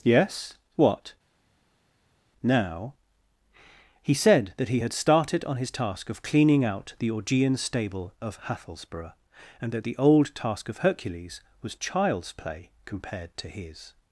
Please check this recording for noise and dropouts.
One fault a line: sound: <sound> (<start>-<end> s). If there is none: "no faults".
no faults